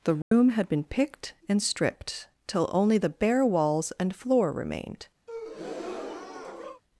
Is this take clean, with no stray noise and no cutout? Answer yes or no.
no